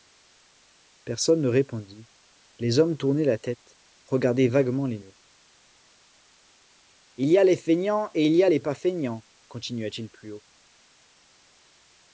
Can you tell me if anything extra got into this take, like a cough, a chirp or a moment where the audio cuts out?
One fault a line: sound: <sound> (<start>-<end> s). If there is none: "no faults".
no faults